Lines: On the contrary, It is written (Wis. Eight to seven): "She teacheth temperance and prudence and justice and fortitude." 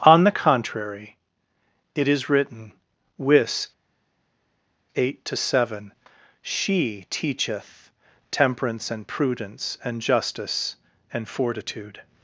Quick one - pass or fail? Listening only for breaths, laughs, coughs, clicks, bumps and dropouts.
pass